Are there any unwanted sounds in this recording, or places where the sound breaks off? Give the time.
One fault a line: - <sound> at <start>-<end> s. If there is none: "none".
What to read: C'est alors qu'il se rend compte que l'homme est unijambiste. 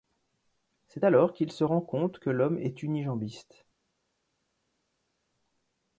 none